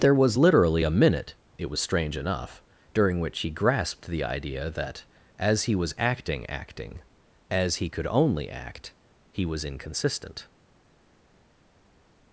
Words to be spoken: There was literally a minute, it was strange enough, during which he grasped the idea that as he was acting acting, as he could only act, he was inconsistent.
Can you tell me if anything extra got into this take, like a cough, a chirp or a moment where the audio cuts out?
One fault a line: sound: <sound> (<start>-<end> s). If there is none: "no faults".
no faults